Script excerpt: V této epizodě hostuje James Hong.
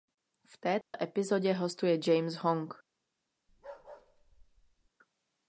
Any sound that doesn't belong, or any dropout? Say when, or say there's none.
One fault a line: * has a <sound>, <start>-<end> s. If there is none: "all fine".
* has a dropout, 0.8-0.9 s
* has a bark, 3.5-4.9 s